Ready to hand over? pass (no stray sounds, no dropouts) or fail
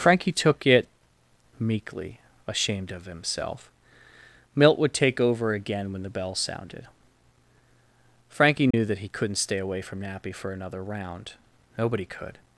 fail